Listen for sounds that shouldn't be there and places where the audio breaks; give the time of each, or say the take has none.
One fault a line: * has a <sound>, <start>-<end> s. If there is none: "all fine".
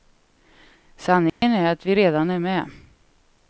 * has a dropout, 1.3-1.4 s